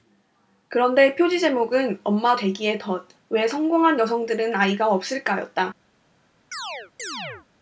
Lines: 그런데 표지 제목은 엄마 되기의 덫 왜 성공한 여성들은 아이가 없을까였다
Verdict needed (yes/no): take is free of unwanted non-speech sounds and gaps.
no